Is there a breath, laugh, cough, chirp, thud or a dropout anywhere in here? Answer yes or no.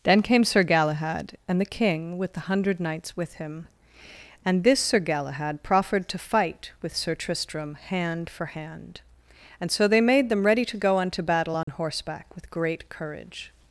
yes